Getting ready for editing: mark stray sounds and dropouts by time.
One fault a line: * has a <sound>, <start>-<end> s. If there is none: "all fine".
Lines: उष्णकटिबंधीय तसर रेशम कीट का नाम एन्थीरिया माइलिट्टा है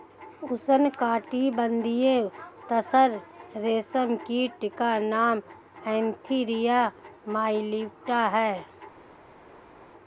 all fine